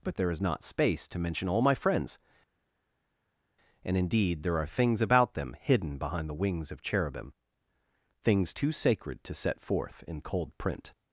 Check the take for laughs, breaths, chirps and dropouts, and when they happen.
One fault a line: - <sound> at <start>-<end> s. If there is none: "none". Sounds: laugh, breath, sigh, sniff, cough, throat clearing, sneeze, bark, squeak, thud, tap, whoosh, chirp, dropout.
none